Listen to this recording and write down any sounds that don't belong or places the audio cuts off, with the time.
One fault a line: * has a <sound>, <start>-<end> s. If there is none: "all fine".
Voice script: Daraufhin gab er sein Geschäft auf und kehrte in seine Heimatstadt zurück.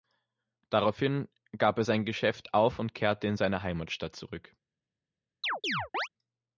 * has a chirp, 5.4-6.1 s